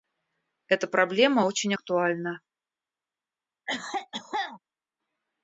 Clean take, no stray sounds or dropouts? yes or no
no